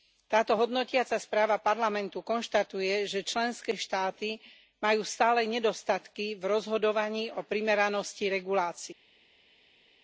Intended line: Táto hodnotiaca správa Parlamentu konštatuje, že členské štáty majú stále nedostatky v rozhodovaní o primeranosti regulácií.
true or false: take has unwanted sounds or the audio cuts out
false